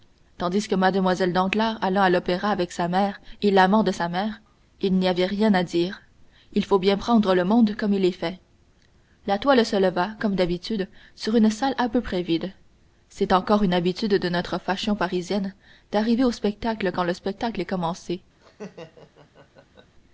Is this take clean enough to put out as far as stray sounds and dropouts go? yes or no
no